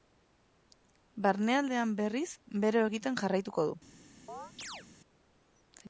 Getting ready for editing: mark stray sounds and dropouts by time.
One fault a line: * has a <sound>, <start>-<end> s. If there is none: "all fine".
* has a chirp, 4.3-4.9 s